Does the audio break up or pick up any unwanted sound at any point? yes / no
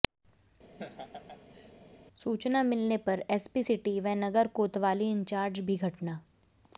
yes